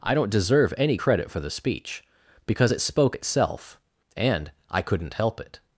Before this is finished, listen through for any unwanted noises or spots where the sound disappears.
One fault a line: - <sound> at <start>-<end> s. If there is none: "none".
none